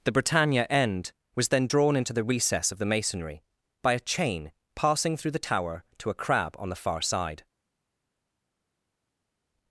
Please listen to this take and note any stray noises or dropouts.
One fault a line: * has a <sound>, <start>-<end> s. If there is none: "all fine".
all fine